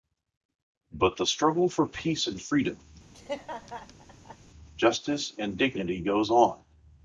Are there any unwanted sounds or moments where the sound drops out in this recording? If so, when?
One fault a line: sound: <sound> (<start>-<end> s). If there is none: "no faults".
sound: laugh (3.1-4.4 s)